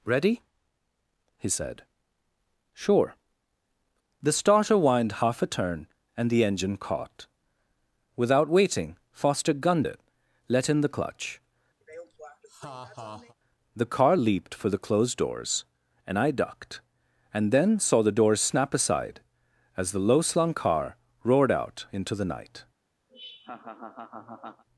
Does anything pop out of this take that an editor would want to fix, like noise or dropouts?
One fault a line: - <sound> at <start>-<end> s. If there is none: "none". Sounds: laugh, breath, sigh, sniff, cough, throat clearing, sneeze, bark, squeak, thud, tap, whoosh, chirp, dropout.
- laugh at 11.8-13.3 s
- laugh at 23.1-24.6 s